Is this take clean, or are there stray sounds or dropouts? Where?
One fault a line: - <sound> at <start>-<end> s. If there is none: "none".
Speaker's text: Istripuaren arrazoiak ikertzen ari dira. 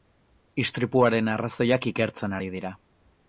none